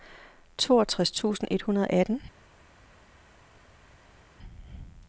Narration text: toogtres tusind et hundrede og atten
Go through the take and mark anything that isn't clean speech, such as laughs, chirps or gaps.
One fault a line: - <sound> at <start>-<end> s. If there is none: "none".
none